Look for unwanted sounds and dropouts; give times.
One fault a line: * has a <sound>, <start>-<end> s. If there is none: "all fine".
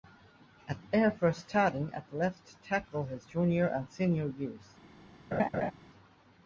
* has a laugh, 5.3-5.7 s